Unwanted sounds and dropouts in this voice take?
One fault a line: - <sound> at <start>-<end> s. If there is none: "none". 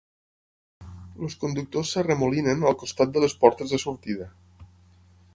none